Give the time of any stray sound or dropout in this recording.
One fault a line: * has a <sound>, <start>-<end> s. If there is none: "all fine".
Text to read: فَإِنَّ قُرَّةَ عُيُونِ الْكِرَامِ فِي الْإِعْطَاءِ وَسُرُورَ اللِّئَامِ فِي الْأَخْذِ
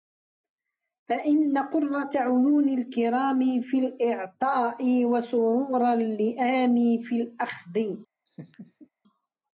* has a laugh, 8.3-8.9 s